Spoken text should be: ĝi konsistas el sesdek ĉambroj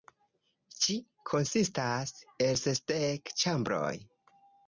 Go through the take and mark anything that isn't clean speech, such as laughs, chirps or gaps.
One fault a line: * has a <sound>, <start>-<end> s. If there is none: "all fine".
all fine